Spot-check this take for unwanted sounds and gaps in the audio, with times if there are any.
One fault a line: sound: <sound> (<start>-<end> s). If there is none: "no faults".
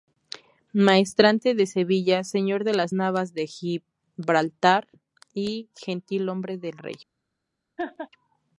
sound: laugh (7.8-8.1 s)